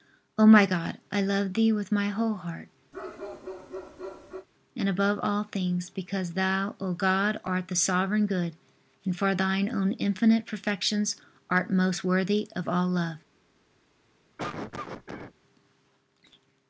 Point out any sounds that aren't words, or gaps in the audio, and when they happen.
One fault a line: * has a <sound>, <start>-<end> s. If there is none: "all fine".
* has a bark, 2.9-4.5 s
* has a cough, 14.4-15.3 s